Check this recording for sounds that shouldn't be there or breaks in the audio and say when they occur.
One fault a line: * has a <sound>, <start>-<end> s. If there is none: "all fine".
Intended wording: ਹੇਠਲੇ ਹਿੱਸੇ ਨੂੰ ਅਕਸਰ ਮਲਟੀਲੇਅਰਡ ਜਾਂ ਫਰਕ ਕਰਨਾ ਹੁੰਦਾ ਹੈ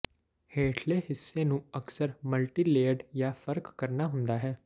all fine